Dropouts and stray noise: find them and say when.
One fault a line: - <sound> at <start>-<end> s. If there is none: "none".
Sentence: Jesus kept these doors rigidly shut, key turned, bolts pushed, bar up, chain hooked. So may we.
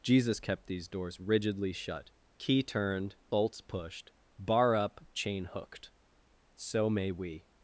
none